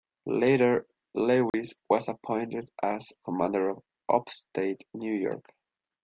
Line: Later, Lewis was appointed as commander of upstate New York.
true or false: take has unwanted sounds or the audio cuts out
true